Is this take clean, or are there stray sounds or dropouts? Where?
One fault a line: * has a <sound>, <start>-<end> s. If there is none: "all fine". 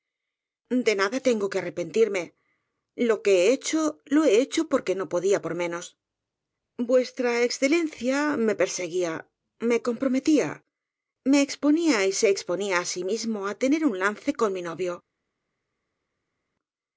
all fine